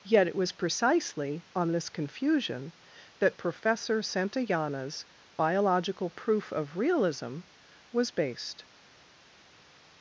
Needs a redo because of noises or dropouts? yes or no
no